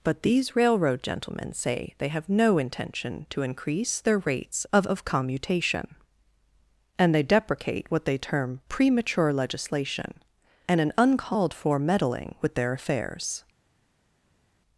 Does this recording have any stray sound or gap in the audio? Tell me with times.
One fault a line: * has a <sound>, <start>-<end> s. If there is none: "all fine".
all fine